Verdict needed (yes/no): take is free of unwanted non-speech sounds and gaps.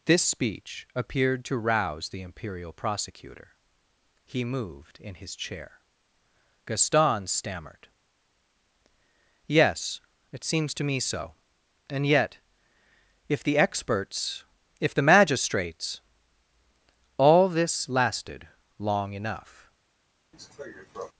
no